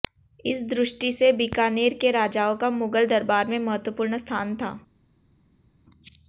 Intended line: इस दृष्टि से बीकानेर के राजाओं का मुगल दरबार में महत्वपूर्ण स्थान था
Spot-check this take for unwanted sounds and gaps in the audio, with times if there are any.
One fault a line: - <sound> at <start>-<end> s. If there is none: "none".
none